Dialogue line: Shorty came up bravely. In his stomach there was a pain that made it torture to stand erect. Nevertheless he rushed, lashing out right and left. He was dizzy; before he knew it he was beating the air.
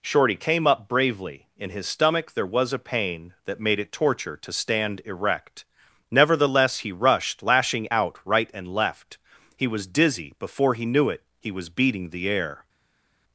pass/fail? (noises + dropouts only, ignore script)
pass